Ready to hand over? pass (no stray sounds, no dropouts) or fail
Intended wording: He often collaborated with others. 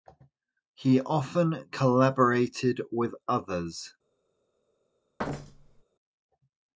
fail